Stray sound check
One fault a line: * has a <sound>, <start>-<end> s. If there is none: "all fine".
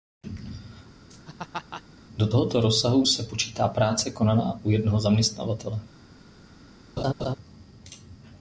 * has a laugh, 1.1-1.8 s
* has a laugh, 7.0-7.4 s